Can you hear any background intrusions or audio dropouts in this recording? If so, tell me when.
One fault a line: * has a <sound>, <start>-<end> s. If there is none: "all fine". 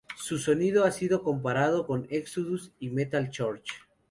all fine